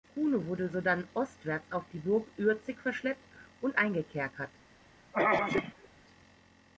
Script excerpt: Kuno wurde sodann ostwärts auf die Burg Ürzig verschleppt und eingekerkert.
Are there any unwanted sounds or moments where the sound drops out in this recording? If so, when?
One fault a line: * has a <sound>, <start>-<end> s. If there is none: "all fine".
* has a throat clearing, 5.1-5.9 s